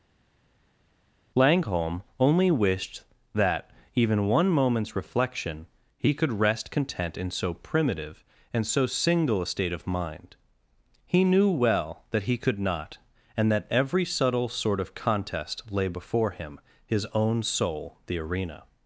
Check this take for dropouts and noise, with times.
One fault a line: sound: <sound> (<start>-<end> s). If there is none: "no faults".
no faults